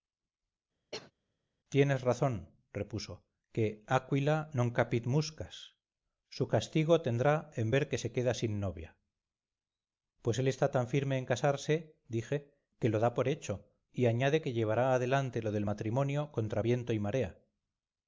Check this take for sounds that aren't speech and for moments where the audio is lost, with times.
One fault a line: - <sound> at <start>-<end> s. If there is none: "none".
- cough at 0.9-1.1 s